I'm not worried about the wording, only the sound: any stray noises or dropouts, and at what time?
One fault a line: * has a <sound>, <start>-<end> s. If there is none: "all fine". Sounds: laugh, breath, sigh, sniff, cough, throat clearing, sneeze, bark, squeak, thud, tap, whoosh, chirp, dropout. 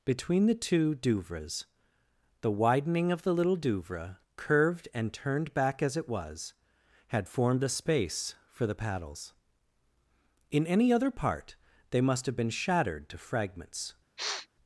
* has a sniff, 14.2-14.5 s